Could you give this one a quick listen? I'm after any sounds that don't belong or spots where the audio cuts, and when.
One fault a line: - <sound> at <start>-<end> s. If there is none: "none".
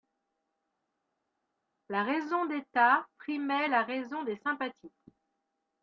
none